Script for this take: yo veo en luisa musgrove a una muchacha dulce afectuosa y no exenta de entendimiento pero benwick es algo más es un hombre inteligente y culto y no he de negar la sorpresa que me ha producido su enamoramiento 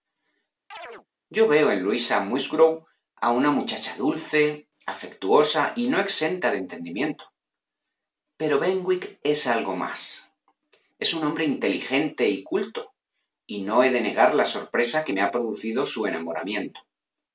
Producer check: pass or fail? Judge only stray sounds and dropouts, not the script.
fail